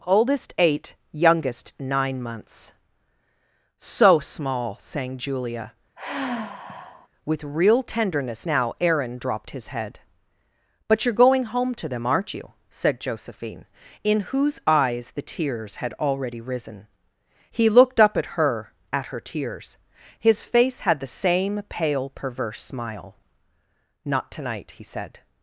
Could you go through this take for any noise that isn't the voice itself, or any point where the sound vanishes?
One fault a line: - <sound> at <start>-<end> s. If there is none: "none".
- sigh at 6.0-7.1 s